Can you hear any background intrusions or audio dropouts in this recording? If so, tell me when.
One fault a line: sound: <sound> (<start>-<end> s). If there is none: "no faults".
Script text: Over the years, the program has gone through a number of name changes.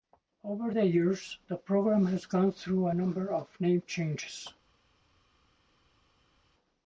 no faults